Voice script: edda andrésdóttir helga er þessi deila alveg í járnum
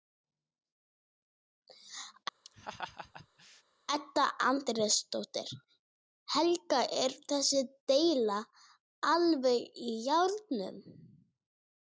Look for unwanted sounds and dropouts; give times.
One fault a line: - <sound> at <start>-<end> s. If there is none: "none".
- laugh at 2.4-3.6 s